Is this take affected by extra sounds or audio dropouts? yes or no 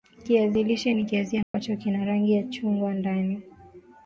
yes